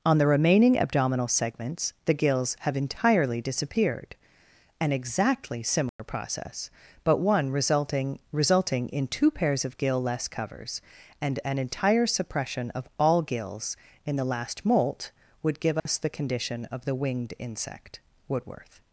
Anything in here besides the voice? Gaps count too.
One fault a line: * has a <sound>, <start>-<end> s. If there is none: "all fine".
* has a dropout, 5.9-6.0 s
* has a dropout, 15.8-15.9 s